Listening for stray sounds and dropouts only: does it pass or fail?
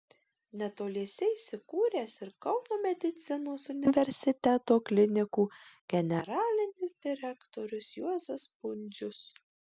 pass